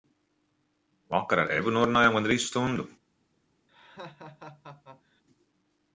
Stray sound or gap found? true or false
true